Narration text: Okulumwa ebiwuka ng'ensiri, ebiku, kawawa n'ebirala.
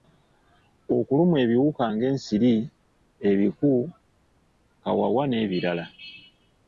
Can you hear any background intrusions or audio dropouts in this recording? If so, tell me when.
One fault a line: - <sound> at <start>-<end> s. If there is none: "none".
none